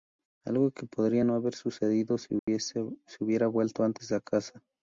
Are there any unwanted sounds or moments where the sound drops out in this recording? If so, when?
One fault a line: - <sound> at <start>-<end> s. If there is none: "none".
- dropout at 2.4-2.5 s